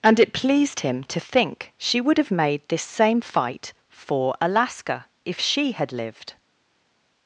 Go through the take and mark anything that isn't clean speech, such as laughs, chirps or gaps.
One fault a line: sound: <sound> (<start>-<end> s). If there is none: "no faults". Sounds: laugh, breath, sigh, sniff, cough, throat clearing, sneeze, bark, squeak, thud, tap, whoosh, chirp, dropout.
no faults